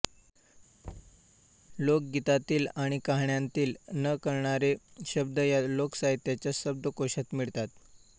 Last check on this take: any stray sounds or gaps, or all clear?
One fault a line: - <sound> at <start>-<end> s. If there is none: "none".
- thud at 0.8-1.2 s